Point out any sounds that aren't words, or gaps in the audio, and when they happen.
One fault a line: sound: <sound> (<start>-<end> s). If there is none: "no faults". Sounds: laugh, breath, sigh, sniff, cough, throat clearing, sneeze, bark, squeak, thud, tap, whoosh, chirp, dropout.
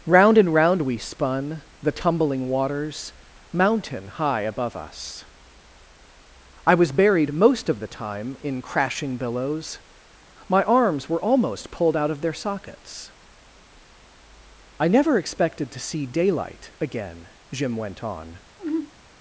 sound: sigh (18.6-18.9 s)